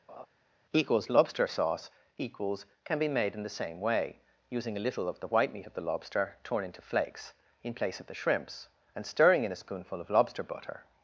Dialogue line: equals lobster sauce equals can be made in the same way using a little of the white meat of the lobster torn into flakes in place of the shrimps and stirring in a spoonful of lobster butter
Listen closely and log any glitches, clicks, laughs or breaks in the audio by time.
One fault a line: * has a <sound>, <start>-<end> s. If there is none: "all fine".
* has a laugh, 0.1-0.3 s